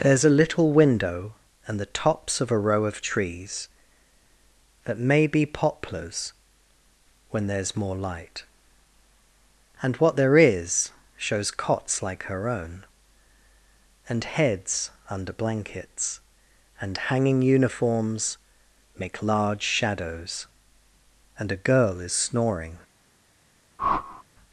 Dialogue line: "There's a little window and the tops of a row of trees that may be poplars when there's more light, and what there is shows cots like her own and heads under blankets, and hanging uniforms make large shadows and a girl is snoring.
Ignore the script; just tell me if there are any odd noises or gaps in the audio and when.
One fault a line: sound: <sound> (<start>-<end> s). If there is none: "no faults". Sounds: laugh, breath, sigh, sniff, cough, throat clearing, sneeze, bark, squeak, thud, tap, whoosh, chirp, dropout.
sound: whoosh (23.8-24.2 s)